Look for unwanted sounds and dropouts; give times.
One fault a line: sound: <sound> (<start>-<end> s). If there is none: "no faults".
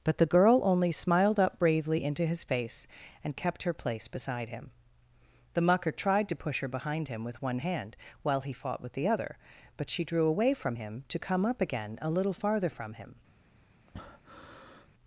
sound: breath (13.9-14.9 s)